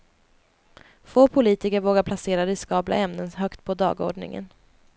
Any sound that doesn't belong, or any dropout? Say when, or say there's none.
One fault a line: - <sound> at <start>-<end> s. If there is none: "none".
none